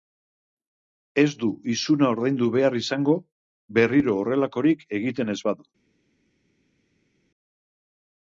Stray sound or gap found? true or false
false